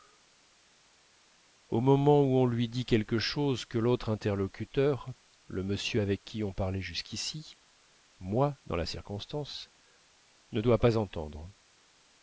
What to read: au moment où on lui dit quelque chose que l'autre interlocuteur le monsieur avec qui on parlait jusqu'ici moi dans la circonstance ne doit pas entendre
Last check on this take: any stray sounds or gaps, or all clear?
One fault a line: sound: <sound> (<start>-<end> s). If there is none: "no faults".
no faults